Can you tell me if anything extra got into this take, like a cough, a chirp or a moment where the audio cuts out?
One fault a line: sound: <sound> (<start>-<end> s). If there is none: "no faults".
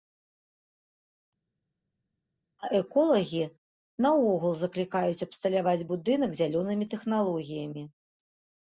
no faults